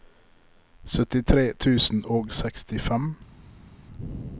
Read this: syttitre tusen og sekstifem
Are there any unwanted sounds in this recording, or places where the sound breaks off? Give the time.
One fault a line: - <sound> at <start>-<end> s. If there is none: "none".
none